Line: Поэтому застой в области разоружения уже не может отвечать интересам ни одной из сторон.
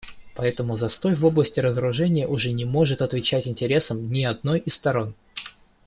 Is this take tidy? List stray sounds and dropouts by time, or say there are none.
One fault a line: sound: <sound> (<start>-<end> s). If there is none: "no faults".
no faults